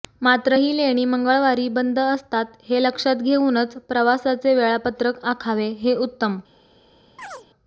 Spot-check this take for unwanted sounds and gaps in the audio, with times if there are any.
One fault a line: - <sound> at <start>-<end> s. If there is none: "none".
- chirp at 7.2-7.5 s